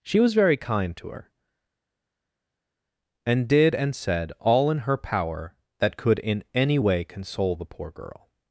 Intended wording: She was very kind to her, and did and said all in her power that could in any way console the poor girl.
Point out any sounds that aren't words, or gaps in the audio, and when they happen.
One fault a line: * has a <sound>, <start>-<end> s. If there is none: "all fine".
all fine